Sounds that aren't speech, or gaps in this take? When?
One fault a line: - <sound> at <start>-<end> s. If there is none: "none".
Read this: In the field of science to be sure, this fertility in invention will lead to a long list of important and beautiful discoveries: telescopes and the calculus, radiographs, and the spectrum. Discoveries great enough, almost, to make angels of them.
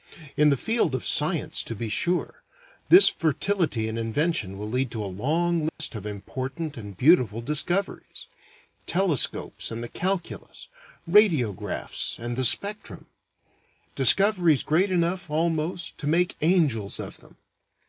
- dropout at 5.7-5.8 s